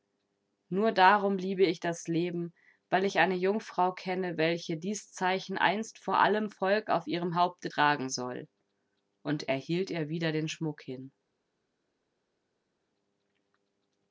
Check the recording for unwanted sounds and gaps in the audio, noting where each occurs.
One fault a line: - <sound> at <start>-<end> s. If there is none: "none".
none